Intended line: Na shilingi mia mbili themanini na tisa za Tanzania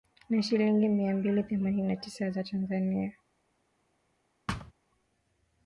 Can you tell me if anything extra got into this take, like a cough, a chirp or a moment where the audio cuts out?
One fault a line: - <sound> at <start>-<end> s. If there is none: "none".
- thud at 4.5-4.7 s